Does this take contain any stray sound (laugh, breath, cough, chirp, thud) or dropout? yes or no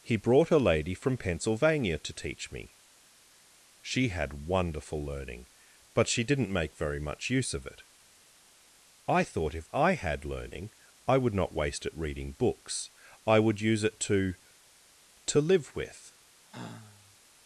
yes